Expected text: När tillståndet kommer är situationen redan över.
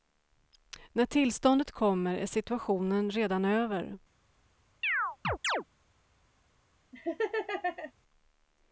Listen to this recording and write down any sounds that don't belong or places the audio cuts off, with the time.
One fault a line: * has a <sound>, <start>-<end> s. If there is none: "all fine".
* has a chirp, 4.8-5.6 s
* has a laugh, 6.9-7.9 s